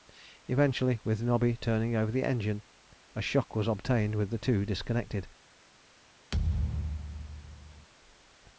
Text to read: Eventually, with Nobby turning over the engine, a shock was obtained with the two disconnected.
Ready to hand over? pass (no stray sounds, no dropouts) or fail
fail